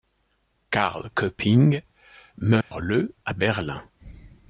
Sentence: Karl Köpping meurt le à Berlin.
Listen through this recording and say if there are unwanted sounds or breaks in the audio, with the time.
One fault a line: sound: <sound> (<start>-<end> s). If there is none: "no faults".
sound: dropout (2.6-2.7 s)